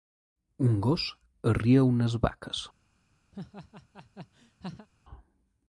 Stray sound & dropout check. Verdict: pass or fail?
fail